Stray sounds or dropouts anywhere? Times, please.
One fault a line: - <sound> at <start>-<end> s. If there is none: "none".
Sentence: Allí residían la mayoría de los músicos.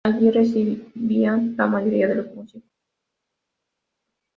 none